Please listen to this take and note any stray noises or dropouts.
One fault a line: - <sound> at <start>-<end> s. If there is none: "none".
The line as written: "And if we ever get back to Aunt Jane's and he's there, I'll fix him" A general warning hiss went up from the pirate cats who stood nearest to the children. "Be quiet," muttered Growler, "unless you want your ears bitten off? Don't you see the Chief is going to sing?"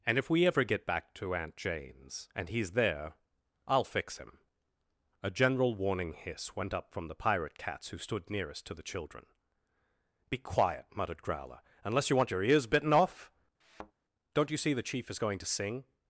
- thud at 13.6-13.9 s